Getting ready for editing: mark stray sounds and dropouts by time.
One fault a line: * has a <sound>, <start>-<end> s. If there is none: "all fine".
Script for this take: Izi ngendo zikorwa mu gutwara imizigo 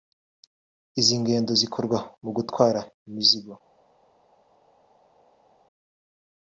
all fine